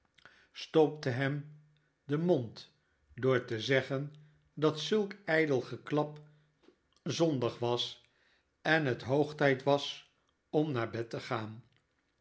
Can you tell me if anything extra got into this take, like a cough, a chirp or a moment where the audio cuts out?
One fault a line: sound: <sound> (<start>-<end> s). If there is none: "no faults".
no faults